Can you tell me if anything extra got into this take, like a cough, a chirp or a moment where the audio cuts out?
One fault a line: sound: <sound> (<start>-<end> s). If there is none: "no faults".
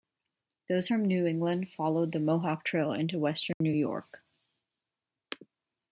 sound: dropout (3.5-3.6 s)